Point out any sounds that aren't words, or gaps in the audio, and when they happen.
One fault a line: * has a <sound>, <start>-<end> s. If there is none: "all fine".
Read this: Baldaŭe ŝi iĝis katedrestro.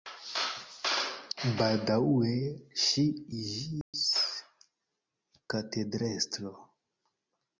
* has a dropout, 3.8-3.9 s